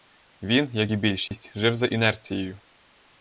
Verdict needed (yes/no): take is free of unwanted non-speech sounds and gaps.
no